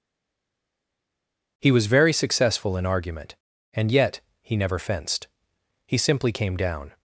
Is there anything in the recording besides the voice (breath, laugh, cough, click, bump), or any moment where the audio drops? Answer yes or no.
no